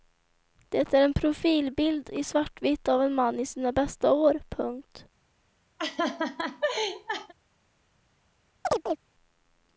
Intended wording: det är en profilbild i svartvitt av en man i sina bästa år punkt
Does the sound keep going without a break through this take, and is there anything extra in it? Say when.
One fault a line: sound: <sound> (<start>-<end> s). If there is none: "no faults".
sound: laugh (5.8-7.3 s)
sound: chirp (8.6-9.0 s)